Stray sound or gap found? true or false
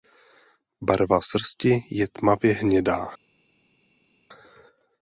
false